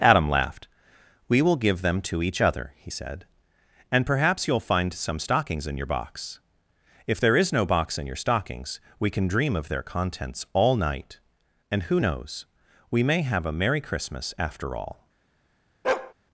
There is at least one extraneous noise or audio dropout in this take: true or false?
true